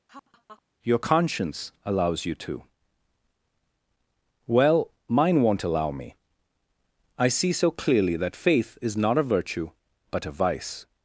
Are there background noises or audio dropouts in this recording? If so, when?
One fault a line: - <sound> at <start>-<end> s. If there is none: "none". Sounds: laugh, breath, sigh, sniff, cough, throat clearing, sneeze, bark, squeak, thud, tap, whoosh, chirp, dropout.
- laugh at 0.1-0.6 s